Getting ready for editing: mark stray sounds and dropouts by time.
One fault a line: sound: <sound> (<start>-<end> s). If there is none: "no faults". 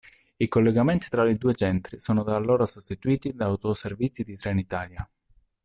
no faults